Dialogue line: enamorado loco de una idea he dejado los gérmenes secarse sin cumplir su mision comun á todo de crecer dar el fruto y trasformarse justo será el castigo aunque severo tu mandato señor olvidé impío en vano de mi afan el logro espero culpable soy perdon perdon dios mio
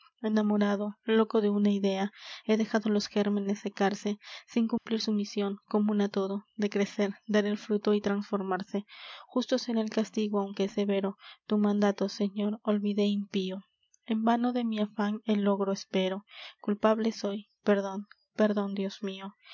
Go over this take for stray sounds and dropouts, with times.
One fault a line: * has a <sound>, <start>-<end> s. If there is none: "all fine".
* has a dropout, 4.8-4.9 s